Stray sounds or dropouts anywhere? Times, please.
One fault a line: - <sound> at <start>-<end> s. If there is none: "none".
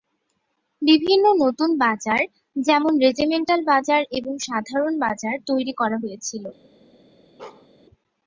- bark at 7.4-7.7 s